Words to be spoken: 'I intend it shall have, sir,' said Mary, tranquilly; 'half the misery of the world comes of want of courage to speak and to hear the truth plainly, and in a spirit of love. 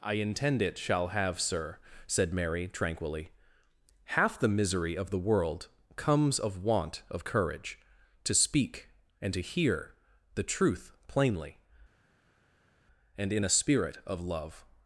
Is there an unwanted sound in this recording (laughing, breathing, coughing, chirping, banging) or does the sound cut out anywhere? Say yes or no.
no